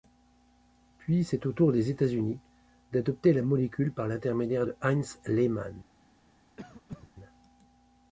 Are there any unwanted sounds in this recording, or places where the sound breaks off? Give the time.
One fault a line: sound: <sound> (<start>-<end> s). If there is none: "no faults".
sound: cough (6.6-7.1 s)